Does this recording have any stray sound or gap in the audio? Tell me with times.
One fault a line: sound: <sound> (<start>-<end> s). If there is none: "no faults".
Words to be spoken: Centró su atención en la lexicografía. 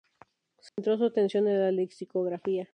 sound: dropout (0.7-0.8 s)